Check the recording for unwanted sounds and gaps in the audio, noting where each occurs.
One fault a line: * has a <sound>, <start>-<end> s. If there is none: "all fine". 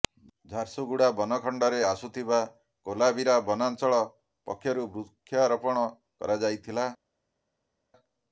all fine